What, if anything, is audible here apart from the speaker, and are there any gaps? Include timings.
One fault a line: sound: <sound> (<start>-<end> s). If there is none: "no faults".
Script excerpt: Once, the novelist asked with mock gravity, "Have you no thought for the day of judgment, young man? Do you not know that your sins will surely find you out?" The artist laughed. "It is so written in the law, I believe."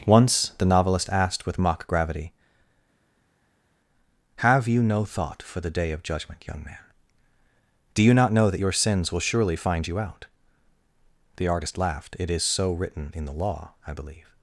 no faults